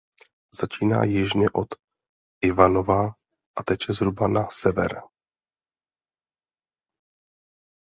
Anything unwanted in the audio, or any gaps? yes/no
no